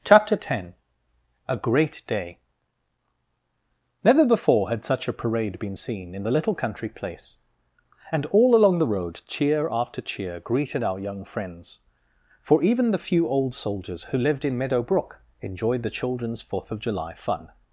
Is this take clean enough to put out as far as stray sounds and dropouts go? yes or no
yes